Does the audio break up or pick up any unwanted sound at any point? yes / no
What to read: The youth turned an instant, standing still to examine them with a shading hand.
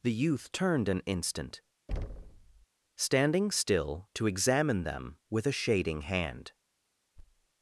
yes